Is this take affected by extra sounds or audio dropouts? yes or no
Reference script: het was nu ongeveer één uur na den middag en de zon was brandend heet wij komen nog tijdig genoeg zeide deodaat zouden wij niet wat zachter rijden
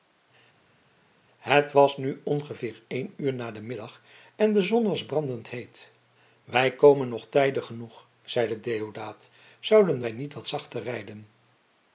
no